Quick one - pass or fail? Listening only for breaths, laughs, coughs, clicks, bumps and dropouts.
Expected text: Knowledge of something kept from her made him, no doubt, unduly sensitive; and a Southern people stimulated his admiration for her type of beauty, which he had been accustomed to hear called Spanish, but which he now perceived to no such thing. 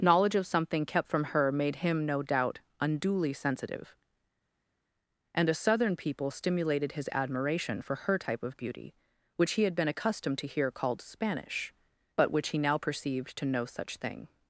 pass